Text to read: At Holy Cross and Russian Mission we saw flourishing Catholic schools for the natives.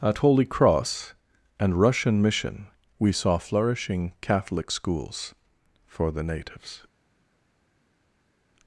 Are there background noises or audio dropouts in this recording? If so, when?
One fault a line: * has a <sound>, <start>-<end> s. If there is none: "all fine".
all fine